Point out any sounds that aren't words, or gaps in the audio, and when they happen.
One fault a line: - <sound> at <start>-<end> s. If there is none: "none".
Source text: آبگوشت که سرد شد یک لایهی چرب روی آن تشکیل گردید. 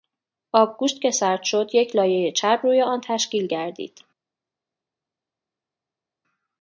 none